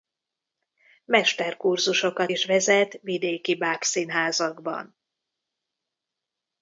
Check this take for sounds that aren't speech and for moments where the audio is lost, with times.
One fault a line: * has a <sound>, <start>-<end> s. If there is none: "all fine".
all fine